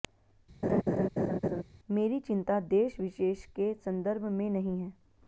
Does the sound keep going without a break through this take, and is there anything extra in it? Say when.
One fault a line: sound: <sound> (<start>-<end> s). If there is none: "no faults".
sound: laugh (0.6-1.6 s)